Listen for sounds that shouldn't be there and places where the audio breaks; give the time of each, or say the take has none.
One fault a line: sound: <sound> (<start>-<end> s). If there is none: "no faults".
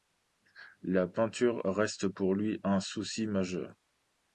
no faults